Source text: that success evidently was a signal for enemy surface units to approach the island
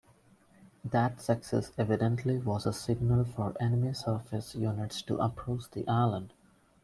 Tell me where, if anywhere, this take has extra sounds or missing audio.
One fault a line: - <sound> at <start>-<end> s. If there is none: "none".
none